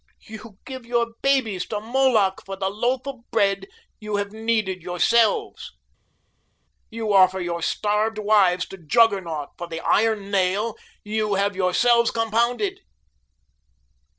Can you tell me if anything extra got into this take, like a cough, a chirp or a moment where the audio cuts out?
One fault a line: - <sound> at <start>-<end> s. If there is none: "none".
none